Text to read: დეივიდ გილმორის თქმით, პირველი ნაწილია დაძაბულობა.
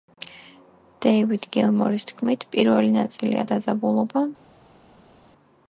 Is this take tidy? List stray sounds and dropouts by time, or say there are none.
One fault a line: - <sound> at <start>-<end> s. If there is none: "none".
none